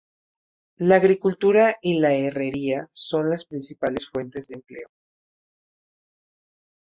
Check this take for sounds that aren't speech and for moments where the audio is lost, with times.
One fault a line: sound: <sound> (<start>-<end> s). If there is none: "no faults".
no faults